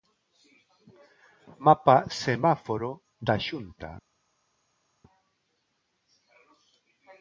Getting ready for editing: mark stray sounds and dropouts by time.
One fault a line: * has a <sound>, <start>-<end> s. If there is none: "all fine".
all fine